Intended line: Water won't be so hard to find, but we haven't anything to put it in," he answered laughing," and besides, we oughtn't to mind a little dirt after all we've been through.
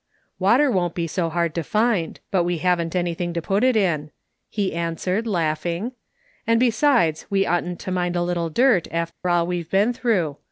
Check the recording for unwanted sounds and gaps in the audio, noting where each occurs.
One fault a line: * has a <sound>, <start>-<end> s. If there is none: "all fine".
* has a dropout, 9.1-9.2 s